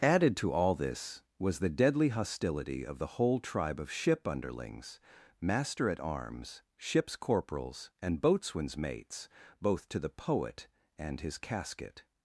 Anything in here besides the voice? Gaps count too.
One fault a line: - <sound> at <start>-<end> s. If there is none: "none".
none